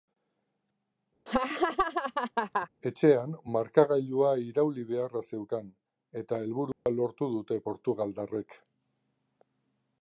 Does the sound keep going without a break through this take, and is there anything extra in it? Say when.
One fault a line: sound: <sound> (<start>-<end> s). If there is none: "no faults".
sound: laugh (1.3-2.7 s)
sound: dropout (6.7-6.9 s)